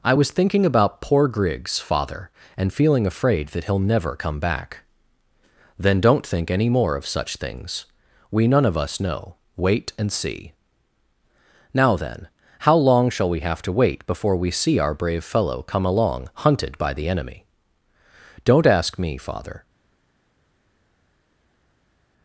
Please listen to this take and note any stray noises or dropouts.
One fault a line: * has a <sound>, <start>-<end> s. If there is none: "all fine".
all fine